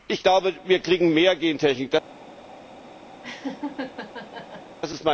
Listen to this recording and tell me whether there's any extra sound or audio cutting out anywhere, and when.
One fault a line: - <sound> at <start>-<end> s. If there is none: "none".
- laugh at 3.2-4.8 s